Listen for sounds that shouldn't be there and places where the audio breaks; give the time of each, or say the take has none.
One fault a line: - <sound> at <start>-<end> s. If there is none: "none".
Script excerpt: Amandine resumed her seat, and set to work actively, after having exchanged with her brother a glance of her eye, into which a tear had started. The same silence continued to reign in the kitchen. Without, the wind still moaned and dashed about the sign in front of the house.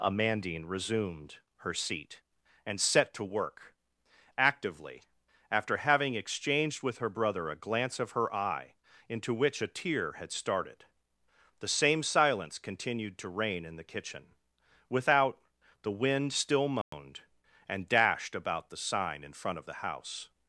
- dropout at 16.8-16.9 s